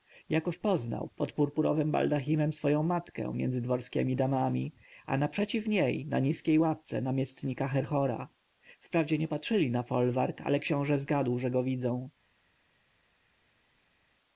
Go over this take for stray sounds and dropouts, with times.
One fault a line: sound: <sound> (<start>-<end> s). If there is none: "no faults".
no faults